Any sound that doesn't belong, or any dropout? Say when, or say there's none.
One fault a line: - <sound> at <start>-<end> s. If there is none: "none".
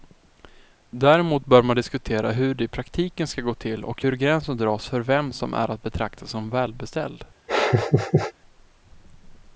- laugh at 7.5-8.3 s